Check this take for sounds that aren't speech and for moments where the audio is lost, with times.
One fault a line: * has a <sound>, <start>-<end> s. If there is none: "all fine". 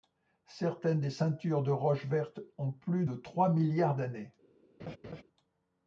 * has a laugh, 4.8-5.2 s